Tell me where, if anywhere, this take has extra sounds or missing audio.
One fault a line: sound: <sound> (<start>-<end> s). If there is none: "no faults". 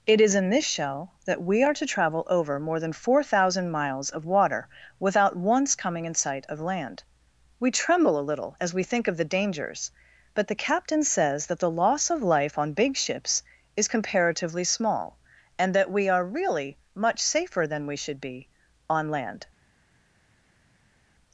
no faults